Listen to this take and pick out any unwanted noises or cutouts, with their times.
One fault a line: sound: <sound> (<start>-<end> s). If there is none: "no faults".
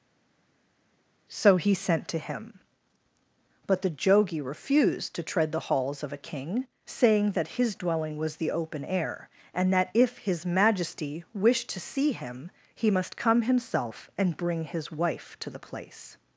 no faults